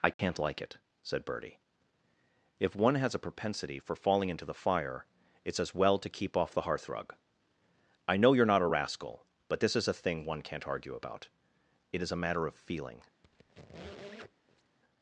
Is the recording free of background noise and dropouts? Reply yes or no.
no